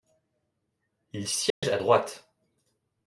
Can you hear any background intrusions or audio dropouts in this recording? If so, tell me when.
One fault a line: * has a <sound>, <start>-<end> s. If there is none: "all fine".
* has a dropout, 1.5-1.6 s